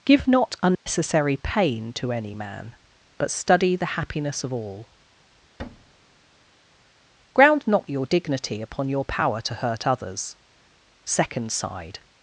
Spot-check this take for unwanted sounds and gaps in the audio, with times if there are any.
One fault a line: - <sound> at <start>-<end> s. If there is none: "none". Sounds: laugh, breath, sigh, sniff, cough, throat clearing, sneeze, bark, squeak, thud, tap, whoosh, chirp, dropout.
- dropout at 0.7-0.9 s
- thud at 5.6-6.6 s